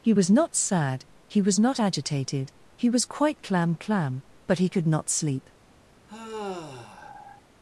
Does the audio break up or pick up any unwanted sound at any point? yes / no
yes